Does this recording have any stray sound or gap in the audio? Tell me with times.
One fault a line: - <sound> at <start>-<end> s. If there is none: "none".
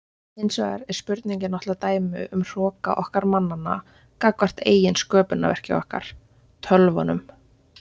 none